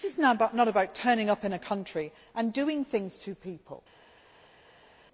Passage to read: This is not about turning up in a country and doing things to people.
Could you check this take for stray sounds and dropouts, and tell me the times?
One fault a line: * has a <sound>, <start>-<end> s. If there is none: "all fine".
all fine